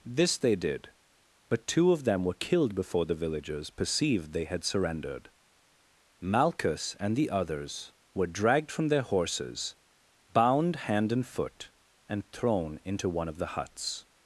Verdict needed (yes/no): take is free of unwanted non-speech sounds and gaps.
yes